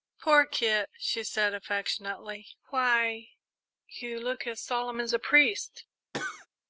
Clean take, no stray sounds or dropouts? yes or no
no